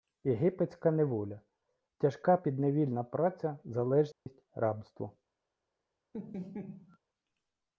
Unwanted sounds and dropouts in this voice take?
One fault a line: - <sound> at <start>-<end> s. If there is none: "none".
- dropout at 4.1-4.3 s
- laugh at 6.1-7.0 s